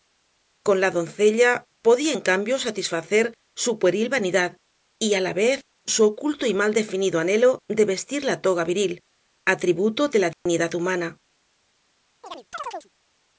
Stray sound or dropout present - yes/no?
yes